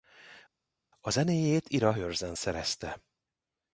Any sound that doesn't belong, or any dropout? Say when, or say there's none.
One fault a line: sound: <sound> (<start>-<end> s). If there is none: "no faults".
no faults